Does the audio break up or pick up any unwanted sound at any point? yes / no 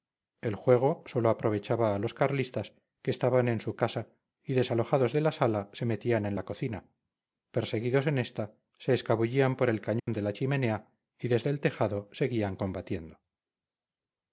yes